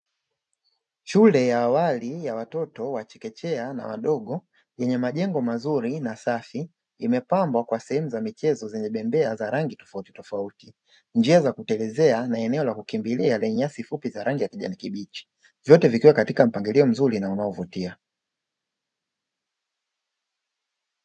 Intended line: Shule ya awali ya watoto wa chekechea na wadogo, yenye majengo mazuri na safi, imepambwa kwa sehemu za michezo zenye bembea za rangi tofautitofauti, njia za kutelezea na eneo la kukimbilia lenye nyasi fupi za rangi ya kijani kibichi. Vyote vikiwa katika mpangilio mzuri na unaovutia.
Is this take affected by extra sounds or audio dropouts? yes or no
no